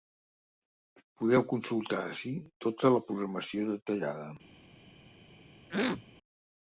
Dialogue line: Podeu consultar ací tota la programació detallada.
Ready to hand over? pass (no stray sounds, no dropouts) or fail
fail